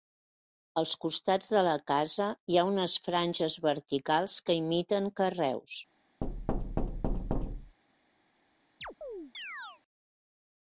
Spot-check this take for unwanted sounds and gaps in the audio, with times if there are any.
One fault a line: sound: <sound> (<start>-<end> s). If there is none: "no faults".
sound: thud (6.2-7.8 s)
sound: chirp (8.8-9.8 s)